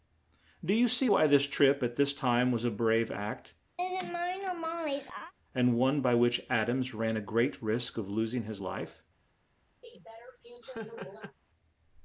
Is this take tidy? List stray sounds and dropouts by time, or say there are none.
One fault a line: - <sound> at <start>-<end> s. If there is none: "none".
- laugh at 3.8-5.3 s
- laugh at 9.8-11.4 s